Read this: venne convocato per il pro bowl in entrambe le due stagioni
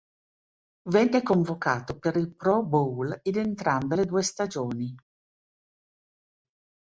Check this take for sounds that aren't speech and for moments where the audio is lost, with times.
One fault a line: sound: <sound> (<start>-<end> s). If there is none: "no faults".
no faults